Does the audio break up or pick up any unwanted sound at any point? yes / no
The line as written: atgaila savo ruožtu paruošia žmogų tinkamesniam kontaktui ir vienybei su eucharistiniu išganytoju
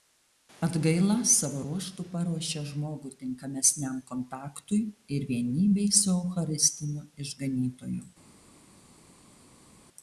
no